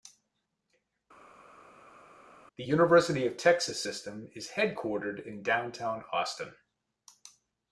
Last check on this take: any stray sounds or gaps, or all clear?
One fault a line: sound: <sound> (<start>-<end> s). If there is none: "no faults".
no faults